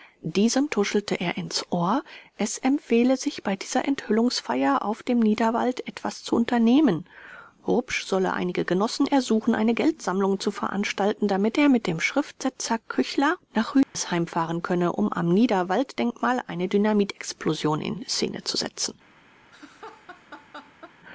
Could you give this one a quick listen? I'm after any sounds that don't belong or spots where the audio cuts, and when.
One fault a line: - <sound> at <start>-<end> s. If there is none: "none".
- dropout at 13.8-13.9 s
- laugh at 19.5-21.0 s